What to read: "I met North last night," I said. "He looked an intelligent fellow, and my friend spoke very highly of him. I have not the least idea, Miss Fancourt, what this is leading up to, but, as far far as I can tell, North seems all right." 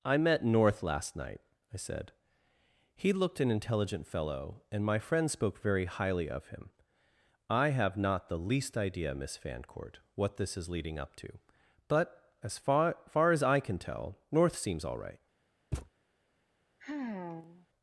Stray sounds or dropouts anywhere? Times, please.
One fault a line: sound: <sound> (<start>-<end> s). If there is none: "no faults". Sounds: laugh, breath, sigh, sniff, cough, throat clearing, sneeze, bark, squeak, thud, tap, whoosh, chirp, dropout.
sound: thud (15.7-15.9 s)
sound: sigh (16.8-17.7 s)